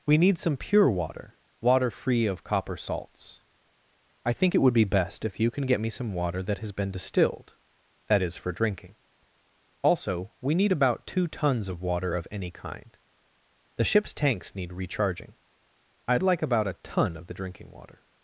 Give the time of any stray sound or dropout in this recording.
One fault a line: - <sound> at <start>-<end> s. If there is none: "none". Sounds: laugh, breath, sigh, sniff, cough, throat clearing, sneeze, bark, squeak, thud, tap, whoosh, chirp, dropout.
none